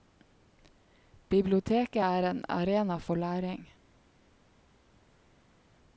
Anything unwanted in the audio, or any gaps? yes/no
no